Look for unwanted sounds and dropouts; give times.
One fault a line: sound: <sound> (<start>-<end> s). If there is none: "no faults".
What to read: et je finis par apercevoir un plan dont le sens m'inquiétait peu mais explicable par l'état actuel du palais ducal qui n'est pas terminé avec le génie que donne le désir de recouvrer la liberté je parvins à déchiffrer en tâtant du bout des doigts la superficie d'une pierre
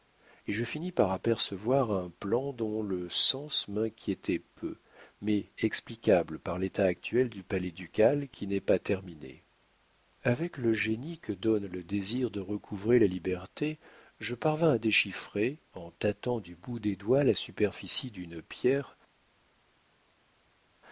no faults